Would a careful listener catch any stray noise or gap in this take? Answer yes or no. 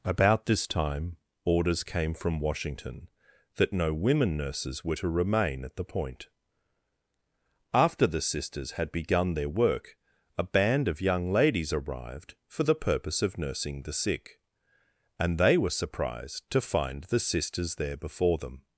no